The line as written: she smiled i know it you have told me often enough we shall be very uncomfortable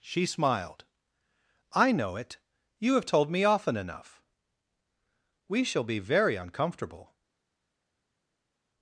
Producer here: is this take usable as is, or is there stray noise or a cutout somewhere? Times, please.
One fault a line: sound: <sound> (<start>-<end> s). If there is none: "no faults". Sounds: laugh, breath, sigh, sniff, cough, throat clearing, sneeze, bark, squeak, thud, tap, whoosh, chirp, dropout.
no faults